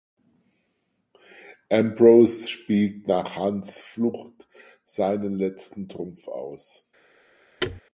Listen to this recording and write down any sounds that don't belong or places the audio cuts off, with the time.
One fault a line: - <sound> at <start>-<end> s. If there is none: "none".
- thud at 7.6-7.8 s